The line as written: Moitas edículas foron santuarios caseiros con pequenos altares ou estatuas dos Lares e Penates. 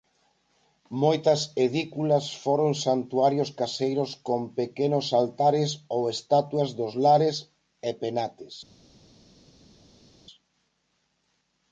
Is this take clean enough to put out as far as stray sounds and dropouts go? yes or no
yes